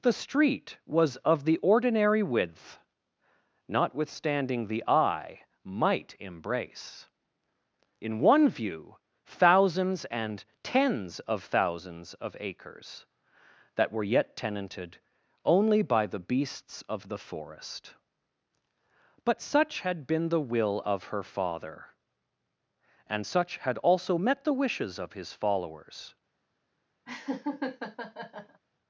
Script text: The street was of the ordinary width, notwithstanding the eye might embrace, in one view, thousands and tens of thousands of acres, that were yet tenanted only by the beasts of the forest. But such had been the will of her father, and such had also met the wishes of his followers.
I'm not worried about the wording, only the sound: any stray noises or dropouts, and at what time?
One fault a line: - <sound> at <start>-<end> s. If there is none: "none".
- laugh at 27.1-28.6 s